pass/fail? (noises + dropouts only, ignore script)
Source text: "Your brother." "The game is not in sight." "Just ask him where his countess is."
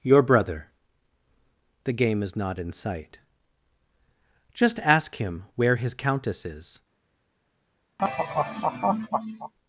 fail